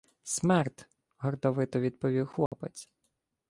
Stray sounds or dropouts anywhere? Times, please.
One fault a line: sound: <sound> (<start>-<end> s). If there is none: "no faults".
sound: dropout (2.5-2.5 s)